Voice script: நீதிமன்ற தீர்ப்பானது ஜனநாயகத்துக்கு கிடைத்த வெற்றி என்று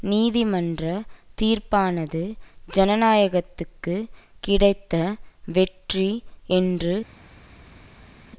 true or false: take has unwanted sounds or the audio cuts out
false